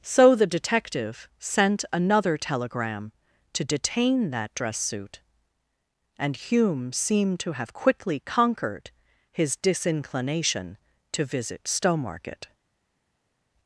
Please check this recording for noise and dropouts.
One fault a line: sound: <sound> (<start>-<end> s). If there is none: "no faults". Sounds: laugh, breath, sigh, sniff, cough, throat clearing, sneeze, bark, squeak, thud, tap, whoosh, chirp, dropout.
no faults